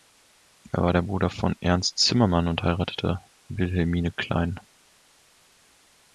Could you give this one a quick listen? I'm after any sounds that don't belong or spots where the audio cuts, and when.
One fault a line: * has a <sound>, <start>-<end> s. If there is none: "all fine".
all fine